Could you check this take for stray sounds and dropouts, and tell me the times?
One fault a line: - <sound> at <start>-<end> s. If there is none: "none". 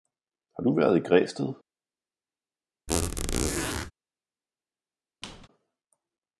- squeak at 2.9-3.9 s
- squeak at 5.2-5.5 s